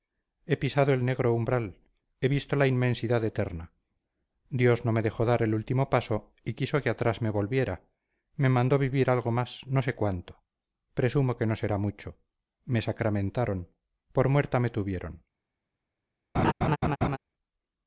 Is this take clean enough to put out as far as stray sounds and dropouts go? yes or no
no